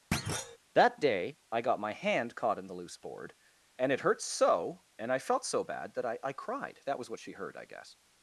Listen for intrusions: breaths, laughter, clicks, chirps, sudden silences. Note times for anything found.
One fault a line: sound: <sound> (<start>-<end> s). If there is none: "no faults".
sound: thud (0.1-0.6 s)